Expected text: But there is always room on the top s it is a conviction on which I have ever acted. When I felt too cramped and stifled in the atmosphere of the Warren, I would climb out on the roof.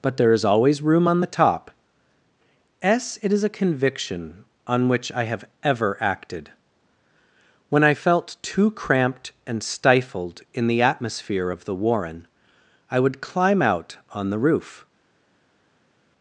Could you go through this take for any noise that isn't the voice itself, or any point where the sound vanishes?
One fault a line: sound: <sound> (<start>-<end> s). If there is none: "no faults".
no faults